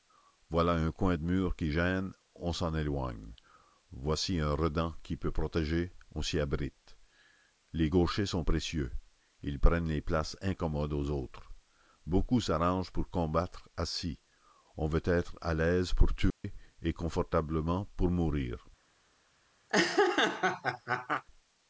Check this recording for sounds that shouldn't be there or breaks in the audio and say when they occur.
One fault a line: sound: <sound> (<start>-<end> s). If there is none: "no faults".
sound: dropout (16.3-16.4 s)
sound: laugh (19.7-21.2 s)